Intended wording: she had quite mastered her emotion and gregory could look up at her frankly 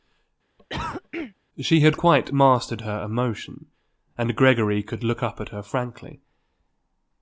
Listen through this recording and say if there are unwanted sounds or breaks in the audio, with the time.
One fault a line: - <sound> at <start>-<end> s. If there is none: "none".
- cough at 0.6-1.3 s